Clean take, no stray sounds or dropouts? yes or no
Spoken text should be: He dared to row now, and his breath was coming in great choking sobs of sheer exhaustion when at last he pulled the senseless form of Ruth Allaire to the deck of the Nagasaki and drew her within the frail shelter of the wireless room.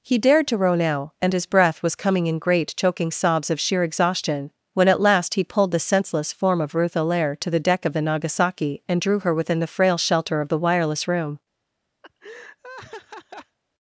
no